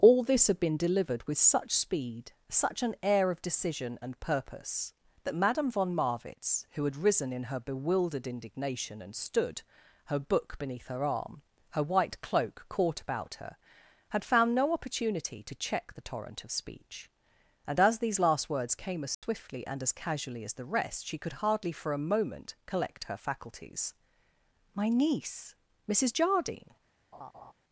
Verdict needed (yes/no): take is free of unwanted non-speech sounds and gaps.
no